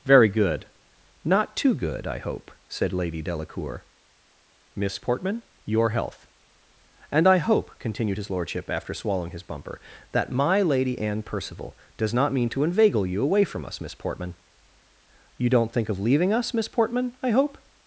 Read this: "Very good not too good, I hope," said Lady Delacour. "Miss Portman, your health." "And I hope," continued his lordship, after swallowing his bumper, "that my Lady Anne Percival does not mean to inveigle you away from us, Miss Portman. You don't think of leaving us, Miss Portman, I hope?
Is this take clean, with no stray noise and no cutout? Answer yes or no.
yes